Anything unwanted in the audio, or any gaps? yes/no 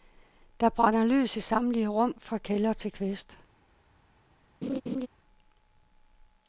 yes